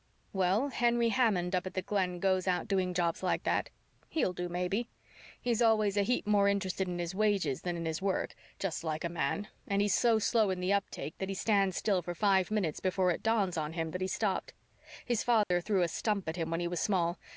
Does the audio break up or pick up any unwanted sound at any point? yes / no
yes